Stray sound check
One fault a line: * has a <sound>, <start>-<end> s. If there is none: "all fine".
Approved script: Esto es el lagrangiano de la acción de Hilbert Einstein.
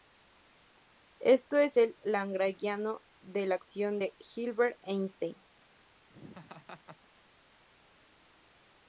* has a laugh, 6.1-7.1 s